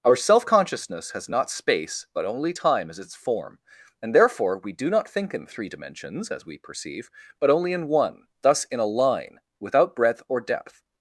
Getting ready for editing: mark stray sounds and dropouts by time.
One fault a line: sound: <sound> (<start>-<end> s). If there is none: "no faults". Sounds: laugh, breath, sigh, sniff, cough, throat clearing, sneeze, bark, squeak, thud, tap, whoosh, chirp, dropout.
no faults